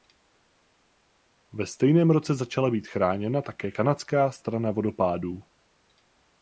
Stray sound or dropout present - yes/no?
no